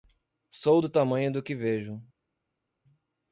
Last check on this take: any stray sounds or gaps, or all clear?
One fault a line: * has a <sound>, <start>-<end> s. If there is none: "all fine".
all fine